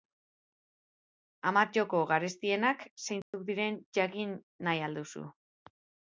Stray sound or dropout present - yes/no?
yes